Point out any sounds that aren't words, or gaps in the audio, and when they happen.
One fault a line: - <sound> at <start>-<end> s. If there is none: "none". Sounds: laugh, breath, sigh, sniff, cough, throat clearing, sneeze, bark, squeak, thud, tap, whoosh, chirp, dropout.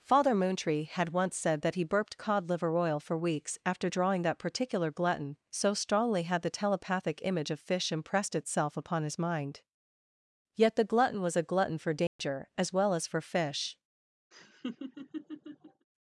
- dropout at 12.1-12.2 s
- laugh at 14.3-15.9 s